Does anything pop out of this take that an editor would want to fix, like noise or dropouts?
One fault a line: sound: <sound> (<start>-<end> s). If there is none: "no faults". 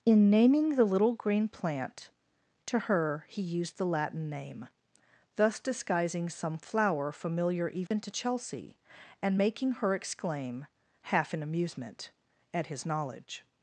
sound: dropout (7.9-7.9 s)